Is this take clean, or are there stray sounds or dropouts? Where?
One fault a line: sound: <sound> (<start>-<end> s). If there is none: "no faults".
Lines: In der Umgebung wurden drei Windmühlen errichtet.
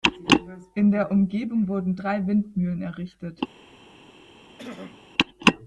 sound: throat clearing (4.6-5.0 s)